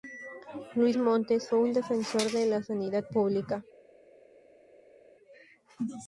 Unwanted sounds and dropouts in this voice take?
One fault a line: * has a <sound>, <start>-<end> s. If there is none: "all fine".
all fine